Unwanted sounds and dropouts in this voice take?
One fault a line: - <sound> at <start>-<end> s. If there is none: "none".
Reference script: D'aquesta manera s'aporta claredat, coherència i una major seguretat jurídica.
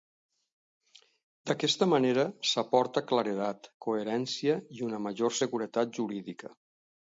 none